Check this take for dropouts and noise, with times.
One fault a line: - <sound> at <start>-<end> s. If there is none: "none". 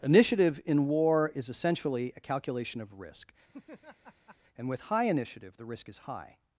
- laugh at 3.5-4.4 s